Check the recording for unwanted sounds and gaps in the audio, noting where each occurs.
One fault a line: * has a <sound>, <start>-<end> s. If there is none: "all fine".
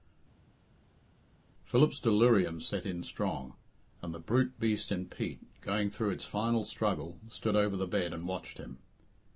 all fine